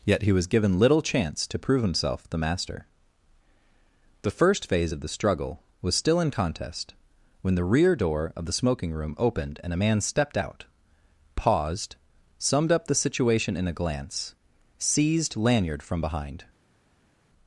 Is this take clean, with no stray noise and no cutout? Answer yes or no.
yes